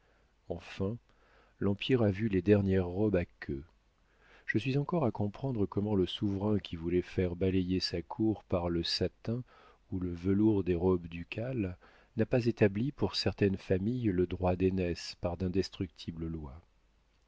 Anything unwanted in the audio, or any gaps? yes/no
no